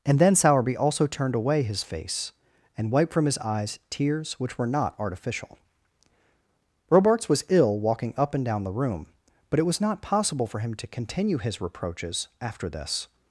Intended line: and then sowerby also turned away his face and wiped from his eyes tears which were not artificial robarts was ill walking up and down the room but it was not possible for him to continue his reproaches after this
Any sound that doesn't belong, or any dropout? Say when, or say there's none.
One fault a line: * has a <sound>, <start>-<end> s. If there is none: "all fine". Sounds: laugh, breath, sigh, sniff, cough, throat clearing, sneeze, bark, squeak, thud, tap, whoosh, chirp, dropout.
all fine